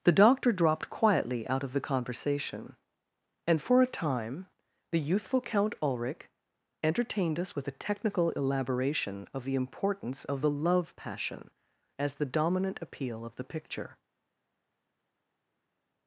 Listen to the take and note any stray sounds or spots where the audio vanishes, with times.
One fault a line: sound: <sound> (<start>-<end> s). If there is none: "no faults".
no faults